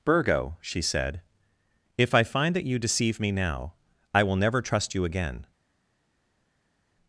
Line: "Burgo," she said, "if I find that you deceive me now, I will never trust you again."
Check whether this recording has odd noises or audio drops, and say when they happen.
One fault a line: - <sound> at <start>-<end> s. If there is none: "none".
none